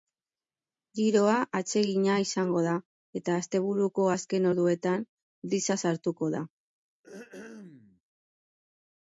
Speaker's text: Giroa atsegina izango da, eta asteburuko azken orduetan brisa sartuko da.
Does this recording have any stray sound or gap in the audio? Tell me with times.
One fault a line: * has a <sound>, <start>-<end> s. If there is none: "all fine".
* has a throat clearing, 7.0-8.0 s